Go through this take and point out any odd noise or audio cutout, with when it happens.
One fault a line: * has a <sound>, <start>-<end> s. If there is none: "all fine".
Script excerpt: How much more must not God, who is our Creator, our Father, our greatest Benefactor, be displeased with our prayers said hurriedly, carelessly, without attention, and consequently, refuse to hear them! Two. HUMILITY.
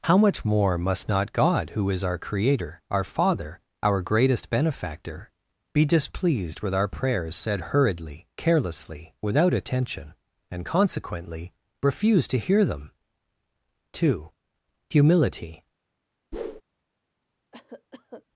* has a whoosh, 16.3-16.6 s
* has a cough, 17.5-18.3 s